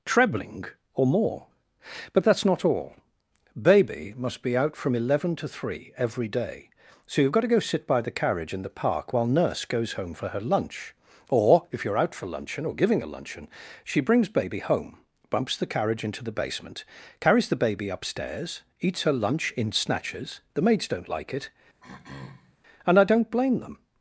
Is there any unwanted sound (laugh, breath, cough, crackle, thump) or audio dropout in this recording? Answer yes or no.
yes